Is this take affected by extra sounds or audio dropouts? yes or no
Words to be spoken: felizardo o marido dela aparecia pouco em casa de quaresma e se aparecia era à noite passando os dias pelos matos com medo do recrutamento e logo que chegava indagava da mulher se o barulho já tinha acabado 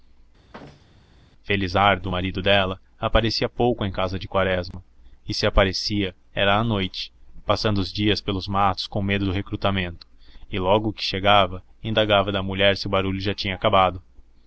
yes